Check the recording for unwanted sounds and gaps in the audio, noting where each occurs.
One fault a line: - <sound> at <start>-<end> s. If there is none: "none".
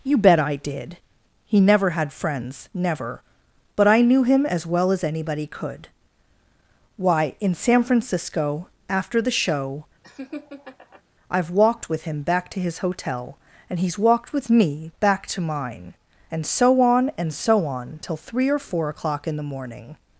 - laugh at 10.0-11.0 s